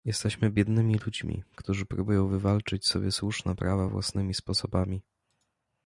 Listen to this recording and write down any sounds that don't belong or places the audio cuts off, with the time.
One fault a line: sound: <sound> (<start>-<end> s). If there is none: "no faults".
no faults